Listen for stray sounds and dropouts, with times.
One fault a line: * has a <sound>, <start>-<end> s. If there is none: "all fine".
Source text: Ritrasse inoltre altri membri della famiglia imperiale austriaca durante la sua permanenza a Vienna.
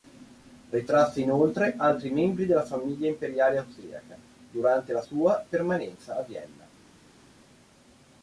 all fine